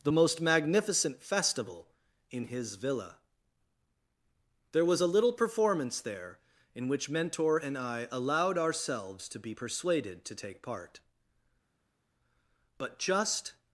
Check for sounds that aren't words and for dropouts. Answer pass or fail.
pass